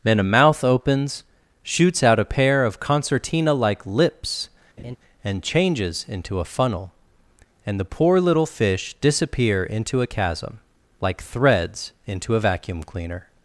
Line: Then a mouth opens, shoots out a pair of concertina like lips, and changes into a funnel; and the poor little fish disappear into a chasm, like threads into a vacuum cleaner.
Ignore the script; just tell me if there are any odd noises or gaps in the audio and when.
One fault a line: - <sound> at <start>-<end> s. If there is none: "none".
- laugh at 4.8-5.0 s